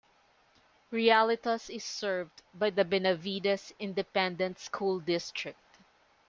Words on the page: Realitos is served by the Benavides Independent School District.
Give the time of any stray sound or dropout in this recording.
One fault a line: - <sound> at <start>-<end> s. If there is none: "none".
none